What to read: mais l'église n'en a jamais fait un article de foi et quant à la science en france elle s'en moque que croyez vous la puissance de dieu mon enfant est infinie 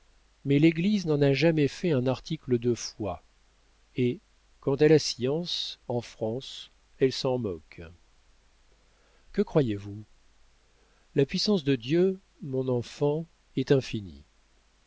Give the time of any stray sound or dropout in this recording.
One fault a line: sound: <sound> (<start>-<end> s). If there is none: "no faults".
no faults